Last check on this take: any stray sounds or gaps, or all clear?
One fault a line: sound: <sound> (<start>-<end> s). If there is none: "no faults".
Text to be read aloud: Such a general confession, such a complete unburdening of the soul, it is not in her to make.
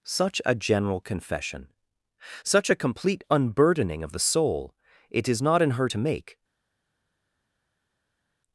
no faults